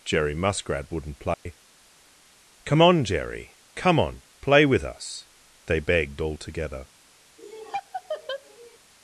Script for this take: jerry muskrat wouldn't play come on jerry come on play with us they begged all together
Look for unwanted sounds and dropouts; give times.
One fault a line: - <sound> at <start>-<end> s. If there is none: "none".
- dropout at 1.3-1.5 s
- laugh at 7.4-8.8 s